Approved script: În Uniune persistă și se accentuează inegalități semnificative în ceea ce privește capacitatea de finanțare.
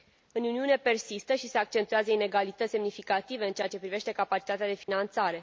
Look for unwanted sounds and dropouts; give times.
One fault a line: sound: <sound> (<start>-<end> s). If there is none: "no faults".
sound: dropout (4.8-4.9 s)